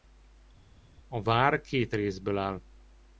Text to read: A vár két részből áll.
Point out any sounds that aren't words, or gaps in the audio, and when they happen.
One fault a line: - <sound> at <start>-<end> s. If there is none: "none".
none